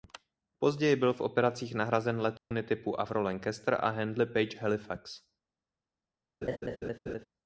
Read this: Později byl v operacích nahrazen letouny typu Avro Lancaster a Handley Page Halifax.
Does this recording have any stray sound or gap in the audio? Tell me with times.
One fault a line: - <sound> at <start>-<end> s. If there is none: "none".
- dropout at 2.4-2.5 s
- laugh at 6.4-7.3 s